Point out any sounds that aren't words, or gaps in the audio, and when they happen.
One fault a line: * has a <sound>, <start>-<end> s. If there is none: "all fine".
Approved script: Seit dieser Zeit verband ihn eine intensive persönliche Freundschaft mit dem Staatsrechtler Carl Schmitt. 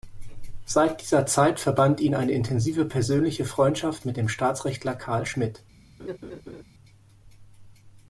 * has a laugh, 6.0-6.6 s